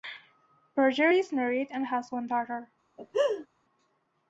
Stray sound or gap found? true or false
true